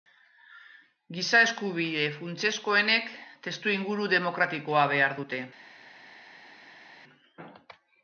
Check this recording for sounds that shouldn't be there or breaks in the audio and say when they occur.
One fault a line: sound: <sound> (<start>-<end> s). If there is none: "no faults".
no faults